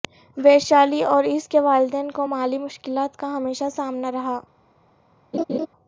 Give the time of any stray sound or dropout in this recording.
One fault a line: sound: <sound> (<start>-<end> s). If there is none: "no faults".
sound: laugh (5.3-5.7 s)